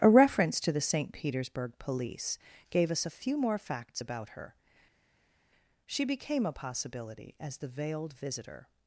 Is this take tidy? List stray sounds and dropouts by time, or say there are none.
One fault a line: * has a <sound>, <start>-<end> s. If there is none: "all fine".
all fine